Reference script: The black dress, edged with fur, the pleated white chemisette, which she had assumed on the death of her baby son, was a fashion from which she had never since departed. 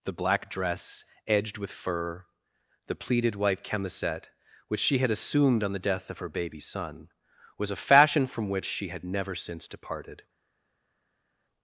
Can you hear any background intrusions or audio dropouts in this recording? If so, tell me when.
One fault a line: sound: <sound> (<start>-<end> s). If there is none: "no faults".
no faults